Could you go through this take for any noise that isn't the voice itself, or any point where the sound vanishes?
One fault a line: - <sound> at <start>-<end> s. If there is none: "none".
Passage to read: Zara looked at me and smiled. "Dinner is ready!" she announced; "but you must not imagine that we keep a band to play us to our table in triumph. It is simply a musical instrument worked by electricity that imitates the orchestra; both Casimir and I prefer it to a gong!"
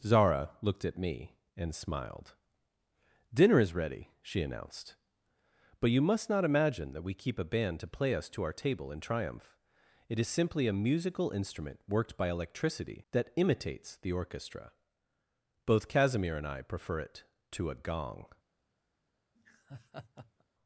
- laugh at 19.4-20.4 s